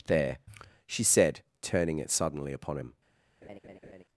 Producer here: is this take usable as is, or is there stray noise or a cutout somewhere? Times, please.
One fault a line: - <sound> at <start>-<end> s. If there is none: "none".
- laugh at 3.4-4.0 s